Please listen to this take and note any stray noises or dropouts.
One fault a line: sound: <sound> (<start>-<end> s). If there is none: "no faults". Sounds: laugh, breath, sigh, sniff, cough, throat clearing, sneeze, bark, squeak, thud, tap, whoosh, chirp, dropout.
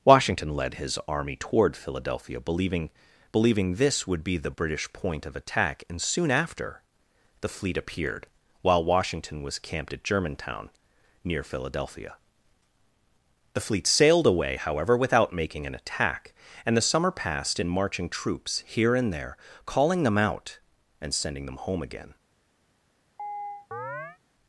sound: chirp (23.2-24.2 s)